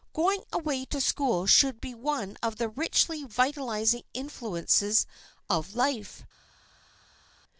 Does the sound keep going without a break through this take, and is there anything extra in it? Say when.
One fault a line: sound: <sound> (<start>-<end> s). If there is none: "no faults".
no faults